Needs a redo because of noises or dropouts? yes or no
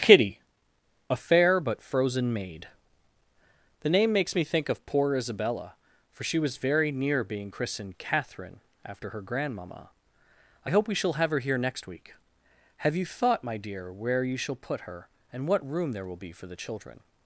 no